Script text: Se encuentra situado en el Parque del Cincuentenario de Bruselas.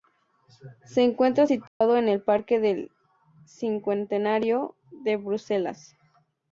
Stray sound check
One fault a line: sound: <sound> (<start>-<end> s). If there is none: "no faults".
sound: dropout (1.7-1.8 s)